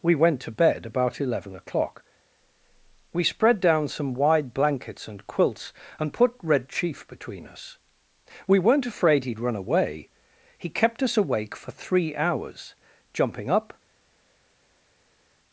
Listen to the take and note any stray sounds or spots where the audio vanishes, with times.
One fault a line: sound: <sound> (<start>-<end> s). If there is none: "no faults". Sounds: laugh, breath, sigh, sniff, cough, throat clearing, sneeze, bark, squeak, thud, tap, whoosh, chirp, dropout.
no faults